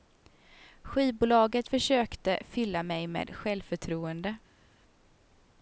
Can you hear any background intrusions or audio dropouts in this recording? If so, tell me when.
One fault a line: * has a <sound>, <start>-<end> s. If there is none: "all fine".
all fine